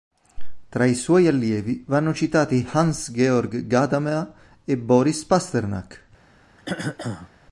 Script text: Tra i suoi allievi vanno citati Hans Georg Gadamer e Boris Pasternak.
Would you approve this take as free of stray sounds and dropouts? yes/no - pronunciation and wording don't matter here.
no